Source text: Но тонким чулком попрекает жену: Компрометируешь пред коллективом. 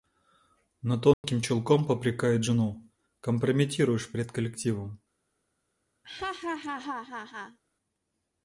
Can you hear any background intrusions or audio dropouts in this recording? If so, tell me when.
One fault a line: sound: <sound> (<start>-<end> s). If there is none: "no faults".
sound: dropout (1.1-1.2 s)
sound: laugh (6.0-7.6 s)